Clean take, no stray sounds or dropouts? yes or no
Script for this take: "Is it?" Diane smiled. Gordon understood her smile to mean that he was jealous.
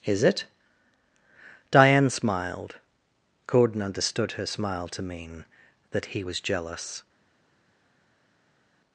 yes